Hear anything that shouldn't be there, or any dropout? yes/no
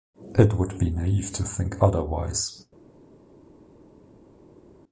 no